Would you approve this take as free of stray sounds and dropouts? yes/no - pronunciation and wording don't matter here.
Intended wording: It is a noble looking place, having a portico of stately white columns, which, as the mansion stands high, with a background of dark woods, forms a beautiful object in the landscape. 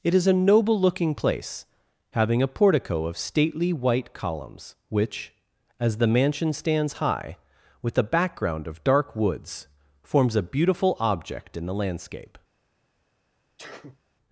no